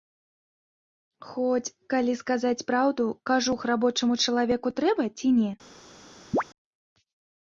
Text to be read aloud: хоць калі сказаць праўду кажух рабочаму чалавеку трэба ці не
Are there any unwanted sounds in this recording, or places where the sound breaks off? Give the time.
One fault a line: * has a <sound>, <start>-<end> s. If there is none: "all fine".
* has a chirp, 6.3-6.4 s